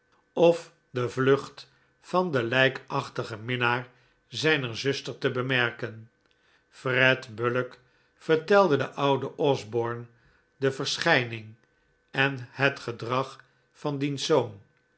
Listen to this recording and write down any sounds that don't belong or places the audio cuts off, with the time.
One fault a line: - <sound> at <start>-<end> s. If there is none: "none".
none